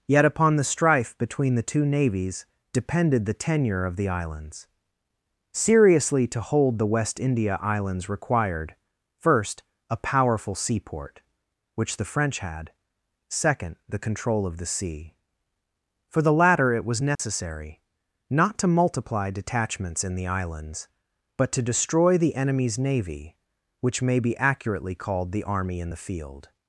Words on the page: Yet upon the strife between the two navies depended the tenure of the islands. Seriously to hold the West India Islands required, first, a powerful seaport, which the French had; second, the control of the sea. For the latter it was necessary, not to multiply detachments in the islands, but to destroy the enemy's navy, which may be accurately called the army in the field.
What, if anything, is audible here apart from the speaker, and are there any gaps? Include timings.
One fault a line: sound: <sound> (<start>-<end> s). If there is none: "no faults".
sound: dropout (17.1-17.2 s)